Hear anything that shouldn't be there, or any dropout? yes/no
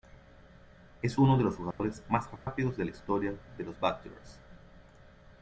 yes